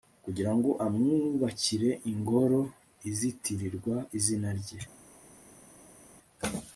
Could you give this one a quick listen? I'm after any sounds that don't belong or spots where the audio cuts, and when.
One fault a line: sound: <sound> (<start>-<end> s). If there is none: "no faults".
no faults